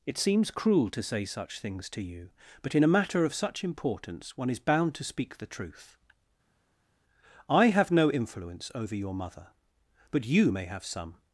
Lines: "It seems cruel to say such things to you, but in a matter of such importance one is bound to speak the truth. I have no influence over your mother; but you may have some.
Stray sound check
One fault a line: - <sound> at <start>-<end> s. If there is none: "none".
none